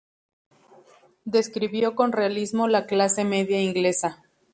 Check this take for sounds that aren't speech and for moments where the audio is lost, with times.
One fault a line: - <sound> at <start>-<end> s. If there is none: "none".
none